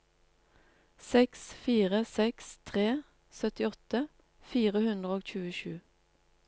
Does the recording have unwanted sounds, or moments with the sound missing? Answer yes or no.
no